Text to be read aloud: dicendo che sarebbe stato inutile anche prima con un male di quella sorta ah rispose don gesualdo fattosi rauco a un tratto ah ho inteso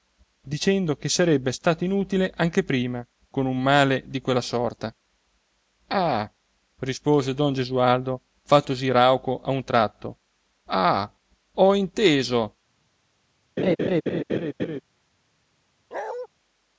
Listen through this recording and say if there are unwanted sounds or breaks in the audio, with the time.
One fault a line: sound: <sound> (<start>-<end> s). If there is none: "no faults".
sound: laugh (13.6-14.8 s)
sound: bark (15.9-16.3 s)